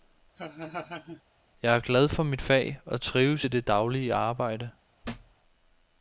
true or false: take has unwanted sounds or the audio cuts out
true